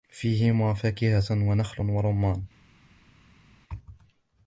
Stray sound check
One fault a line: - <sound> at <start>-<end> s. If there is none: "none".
none